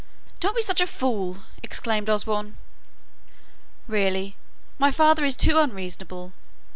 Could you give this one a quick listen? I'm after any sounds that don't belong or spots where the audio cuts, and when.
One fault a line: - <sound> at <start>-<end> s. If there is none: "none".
none